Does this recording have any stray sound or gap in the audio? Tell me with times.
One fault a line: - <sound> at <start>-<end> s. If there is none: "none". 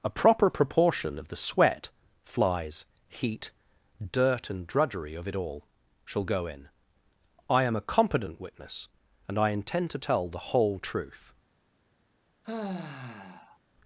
- sigh at 12.4-13.6 s